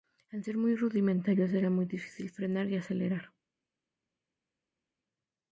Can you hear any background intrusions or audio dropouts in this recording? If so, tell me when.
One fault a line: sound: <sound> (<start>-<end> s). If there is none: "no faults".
no faults